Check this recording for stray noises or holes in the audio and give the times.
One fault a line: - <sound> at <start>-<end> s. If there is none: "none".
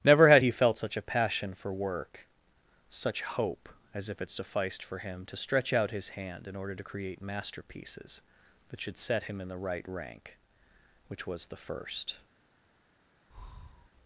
- breath at 13.3-13.9 s